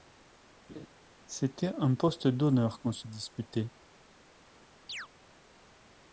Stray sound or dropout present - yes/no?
yes